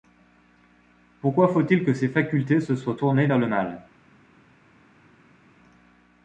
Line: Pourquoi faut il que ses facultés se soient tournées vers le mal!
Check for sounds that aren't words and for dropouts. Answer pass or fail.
pass